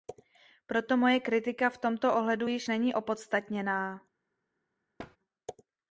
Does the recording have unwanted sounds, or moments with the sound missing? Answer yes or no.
yes